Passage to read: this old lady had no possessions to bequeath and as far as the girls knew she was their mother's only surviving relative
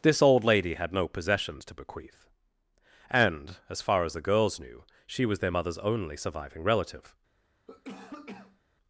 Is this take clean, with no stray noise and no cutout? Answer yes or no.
no